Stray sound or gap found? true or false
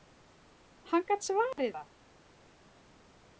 true